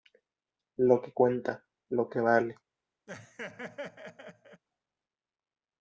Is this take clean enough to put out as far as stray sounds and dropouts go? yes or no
no